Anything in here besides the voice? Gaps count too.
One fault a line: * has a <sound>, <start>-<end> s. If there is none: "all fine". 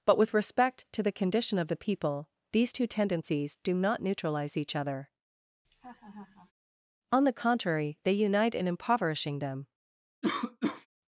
* has a laugh, 5.6-6.5 s
* has a cough, 10.2-10.9 s